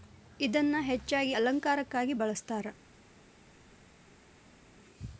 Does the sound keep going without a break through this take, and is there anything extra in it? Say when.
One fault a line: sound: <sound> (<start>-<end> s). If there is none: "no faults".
no faults